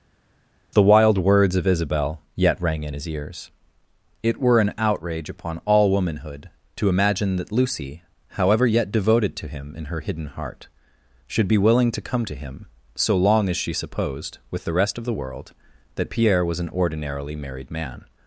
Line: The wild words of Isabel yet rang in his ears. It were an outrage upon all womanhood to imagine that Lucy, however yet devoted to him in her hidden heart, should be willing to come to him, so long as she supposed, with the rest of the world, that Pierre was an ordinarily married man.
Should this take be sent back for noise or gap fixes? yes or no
no